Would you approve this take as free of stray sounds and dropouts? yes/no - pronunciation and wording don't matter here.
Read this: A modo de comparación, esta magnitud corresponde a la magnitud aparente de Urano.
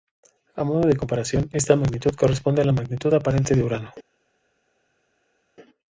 yes